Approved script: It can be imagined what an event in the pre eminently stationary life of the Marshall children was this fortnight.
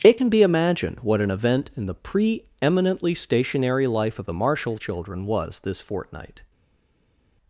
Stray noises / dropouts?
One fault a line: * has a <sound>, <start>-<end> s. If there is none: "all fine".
all fine